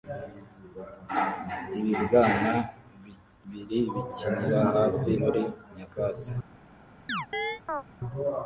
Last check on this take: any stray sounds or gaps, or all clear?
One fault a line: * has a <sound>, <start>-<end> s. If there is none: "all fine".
* has a chirp, 7.1-7.8 s